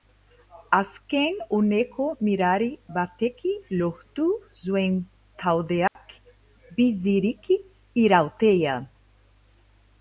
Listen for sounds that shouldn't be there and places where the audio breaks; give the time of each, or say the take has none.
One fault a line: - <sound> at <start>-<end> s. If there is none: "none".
- dropout at 5.9-6.0 s